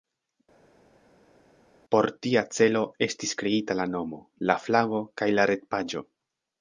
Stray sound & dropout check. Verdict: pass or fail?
pass